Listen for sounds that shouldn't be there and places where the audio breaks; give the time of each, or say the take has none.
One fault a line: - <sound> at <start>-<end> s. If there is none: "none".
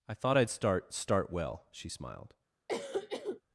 - cough at 2.7-3.4 s